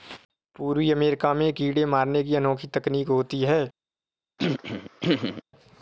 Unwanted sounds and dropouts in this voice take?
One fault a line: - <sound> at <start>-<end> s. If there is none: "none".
- throat clearing at 4.4-5.4 s